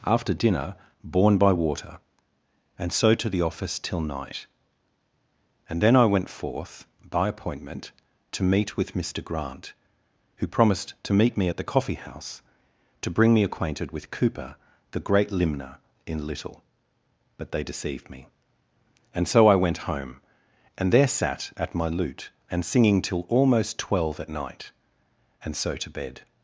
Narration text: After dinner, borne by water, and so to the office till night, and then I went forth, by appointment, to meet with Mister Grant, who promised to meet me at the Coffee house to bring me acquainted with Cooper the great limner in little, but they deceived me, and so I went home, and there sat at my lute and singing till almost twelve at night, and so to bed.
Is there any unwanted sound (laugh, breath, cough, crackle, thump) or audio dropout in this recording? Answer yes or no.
no